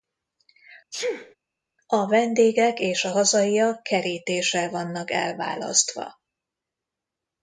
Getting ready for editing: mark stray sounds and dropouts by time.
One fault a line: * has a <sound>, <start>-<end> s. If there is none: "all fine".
* has a sneeze, 0.9-1.4 s